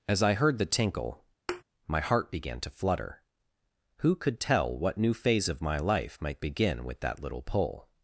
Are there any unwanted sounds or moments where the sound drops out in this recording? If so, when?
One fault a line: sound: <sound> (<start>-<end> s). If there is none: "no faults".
sound: thud (1.5-1.6 s)